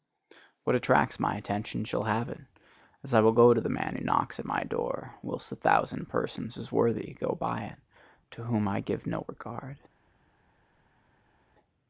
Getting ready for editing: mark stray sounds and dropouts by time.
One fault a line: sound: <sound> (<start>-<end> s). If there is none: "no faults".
no faults